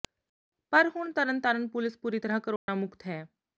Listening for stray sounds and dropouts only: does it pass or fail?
fail